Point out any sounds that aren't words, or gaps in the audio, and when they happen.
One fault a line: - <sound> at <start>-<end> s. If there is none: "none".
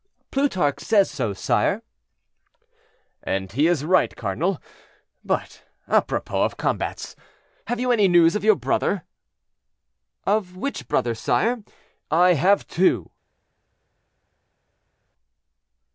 none